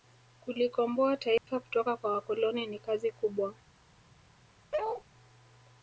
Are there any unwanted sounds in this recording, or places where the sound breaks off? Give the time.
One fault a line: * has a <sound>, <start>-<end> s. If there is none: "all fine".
* has a dropout, 1.4-1.5 s
* has a bark, 4.7-5.0 s